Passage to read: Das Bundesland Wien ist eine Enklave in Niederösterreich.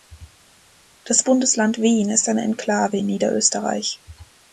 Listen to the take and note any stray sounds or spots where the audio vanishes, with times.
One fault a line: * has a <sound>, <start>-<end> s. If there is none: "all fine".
all fine